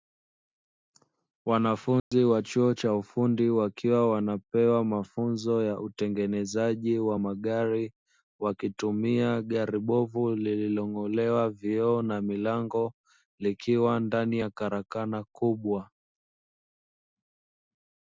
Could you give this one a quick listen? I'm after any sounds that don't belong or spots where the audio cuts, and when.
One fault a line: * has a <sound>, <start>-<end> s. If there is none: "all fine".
* has a dropout, 2.0-2.1 s